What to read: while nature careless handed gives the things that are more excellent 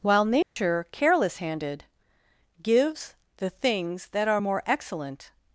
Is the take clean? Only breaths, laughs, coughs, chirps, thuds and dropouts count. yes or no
no